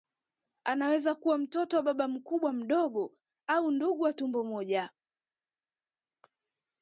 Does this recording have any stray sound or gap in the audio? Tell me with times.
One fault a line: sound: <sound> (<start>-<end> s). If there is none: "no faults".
no faults